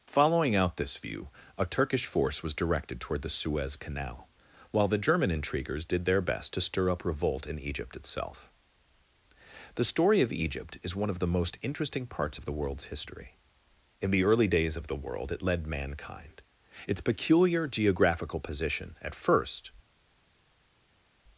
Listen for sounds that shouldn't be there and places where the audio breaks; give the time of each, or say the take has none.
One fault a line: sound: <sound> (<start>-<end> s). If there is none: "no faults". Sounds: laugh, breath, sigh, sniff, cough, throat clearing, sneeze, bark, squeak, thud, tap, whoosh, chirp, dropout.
no faults